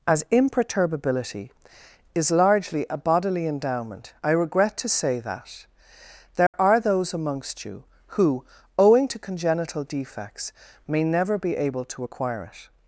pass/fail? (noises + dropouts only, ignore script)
fail